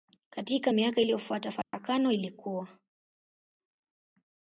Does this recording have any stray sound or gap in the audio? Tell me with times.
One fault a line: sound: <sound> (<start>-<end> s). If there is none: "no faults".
sound: dropout (1.6-1.7 s)